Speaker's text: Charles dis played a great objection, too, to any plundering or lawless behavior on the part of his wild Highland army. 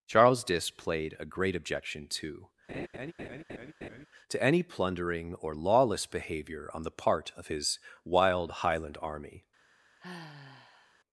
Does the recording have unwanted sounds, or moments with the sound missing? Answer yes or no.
yes